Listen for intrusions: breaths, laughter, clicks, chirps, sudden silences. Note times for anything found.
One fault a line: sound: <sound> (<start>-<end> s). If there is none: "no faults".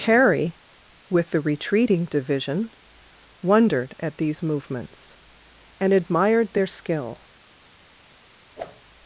sound: whoosh (8.6-8.8 s)